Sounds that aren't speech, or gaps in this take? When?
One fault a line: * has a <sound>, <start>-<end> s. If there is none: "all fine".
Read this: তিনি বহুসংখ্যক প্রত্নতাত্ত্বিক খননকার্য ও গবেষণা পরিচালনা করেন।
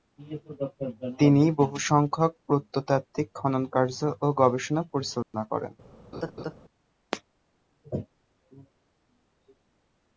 * has a dropout, 5.2-5.3 s
* has a laugh, 6.1-6.5 s